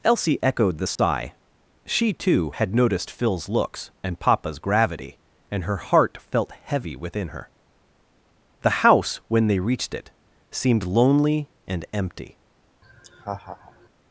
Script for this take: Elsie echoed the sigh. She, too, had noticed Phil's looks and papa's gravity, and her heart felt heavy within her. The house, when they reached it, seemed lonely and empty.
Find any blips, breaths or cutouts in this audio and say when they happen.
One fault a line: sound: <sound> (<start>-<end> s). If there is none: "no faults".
sound: dropout (1.0-1.0 s)
sound: laugh (12.8-13.9 s)